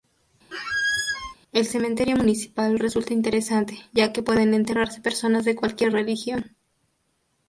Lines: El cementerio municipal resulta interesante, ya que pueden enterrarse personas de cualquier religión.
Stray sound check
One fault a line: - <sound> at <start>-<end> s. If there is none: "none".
- squeak at 0.5-1.3 s